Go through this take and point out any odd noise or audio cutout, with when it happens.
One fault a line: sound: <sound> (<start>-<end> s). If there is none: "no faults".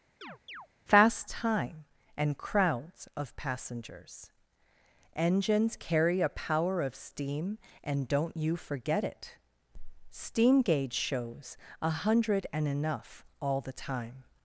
sound: chirp (0.2-0.7 s)